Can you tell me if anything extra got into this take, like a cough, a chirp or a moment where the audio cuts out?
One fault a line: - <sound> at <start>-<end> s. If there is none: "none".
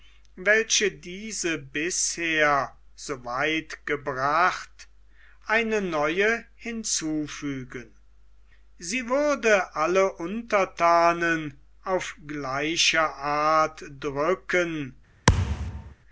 - thud at 15.3-15.9 s